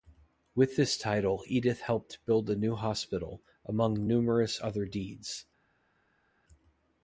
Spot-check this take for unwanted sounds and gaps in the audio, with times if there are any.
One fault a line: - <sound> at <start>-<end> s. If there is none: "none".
none